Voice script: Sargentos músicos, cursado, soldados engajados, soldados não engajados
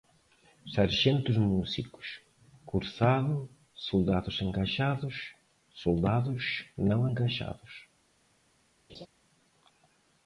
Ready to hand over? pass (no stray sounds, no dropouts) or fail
fail